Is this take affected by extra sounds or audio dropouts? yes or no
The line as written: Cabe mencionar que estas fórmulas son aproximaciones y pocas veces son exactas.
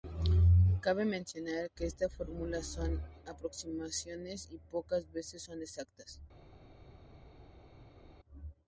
no